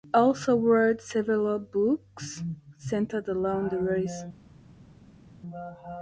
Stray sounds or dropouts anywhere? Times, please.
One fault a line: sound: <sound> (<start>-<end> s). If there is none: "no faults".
no faults